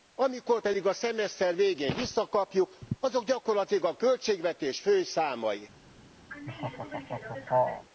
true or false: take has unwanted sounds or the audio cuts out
true